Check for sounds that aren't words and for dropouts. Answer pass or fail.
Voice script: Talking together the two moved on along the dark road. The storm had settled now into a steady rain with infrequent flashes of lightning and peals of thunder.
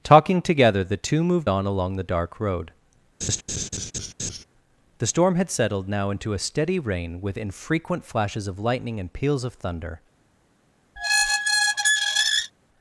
fail